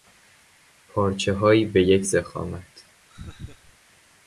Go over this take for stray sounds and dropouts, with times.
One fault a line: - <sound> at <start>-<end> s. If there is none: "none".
- laugh at 3.1-3.8 s